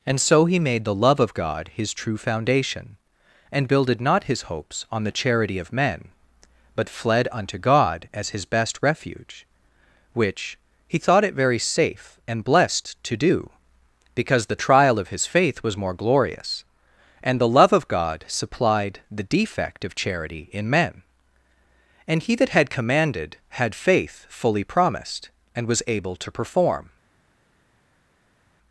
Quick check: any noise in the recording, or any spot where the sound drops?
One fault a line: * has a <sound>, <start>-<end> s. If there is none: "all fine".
all fine